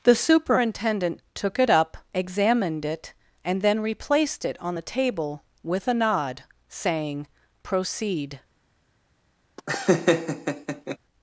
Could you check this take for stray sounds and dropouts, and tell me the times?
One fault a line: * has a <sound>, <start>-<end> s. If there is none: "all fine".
* has a laugh, 9.6-11.0 s